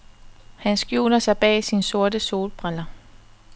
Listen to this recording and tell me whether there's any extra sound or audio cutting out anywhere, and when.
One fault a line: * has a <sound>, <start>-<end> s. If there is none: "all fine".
all fine